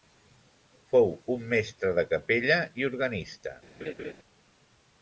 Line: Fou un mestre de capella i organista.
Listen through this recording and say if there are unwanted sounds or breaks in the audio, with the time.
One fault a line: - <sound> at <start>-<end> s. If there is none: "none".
- laugh at 3.8-4.1 s